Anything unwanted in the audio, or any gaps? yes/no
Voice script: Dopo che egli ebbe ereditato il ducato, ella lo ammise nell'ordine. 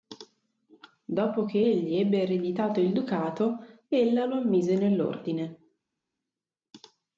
no